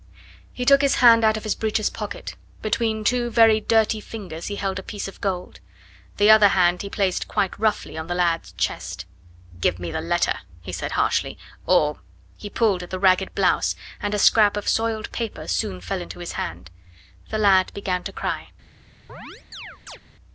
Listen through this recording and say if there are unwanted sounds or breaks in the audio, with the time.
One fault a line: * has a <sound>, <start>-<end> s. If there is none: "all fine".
* has a chirp, 19.1-20.0 s